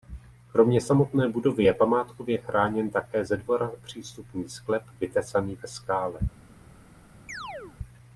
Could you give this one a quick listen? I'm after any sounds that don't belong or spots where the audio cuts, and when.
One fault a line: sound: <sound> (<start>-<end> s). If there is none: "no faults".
sound: chirp (7.3-7.8 s)